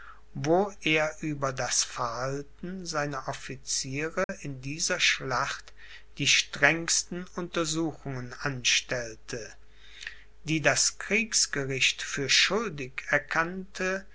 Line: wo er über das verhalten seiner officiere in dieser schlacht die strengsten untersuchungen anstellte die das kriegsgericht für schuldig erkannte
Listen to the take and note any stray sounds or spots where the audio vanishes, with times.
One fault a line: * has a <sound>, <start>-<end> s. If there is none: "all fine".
* has a dropout, 4.2-4.3 s